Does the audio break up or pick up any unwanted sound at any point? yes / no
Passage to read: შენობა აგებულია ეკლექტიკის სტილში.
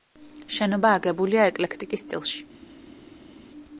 no